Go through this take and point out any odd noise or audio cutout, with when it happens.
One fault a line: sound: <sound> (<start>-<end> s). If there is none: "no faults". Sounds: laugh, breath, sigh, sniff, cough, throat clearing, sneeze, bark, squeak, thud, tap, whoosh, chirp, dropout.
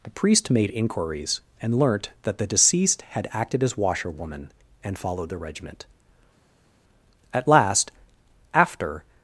no faults